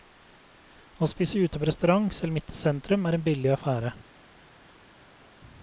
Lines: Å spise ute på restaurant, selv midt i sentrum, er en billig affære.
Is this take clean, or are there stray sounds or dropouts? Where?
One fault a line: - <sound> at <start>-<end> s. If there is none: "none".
none